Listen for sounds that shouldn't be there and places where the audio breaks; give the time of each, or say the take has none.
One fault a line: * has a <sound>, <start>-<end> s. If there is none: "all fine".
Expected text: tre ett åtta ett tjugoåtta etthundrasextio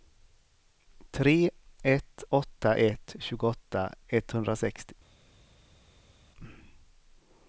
all fine